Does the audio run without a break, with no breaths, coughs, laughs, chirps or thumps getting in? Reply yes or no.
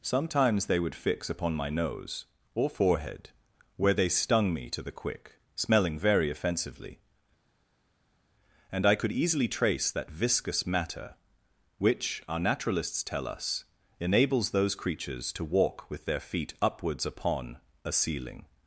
yes